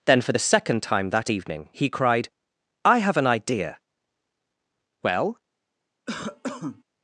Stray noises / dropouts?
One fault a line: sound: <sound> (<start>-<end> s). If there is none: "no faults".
sound: cough (6.1-6.8 s)